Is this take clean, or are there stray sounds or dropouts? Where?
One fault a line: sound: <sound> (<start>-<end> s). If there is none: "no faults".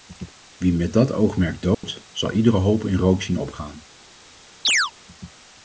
sound: dropout (1.7-1.8 s)
sound: chirp (4.6-4.9 s)